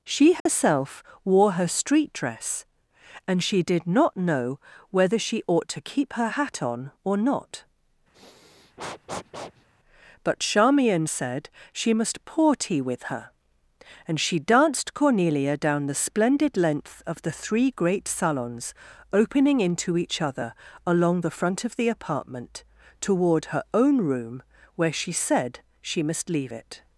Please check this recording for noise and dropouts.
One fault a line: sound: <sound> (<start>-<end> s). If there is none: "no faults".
sound: dropout (0.4-0.5 s)
sound: sniff (8.1-9.7 s)